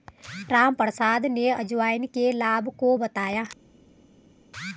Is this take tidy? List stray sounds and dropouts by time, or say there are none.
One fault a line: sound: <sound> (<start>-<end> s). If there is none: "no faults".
no faults